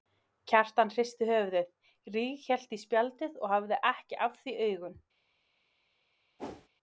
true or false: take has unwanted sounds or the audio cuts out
true